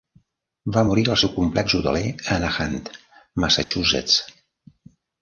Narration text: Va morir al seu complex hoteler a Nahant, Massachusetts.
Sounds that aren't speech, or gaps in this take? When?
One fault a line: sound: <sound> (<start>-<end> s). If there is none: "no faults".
sound: dropout (3.6-3.7 s)